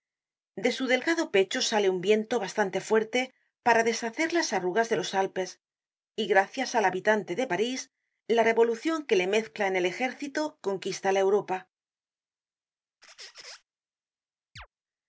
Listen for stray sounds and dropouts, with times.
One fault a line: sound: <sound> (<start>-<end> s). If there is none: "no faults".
sound: squeak (13.0-13.6 s)
sound: chirp (14.6-14.7 s)